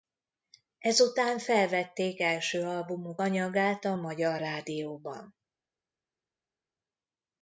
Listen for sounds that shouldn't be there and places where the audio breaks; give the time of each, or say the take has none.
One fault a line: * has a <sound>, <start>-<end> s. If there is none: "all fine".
all fine